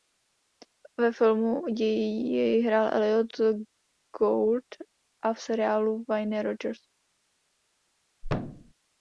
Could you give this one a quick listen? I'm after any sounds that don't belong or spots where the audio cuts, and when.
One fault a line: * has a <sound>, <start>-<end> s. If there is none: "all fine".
* has a thud, 8.2-8.7 s